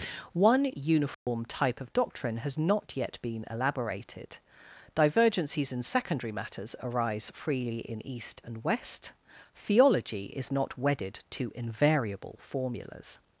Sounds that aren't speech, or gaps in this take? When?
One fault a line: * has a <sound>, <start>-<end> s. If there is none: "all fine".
* has a dropout, 1.1-1.3 s